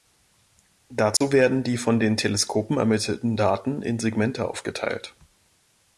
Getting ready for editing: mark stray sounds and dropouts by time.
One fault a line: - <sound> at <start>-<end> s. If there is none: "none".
- dropout at 1.2-1.2 s